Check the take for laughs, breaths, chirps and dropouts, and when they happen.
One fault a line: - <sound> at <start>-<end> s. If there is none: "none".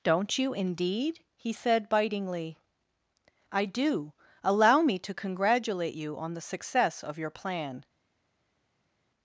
none